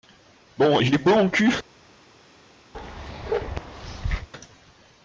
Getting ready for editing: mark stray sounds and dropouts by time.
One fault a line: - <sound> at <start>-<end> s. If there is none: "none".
- bark at 2.7-4.3 s